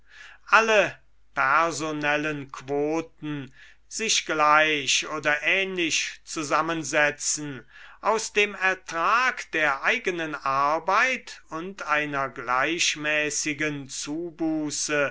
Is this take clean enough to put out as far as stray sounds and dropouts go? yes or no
yes